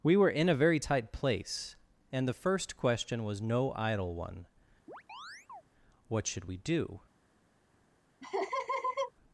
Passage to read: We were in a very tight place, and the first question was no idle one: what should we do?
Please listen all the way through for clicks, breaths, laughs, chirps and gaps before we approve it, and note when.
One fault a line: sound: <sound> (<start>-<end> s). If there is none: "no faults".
sound: chirp (4.9-5.6 s)
sound: laugh (8.2-9.1 s)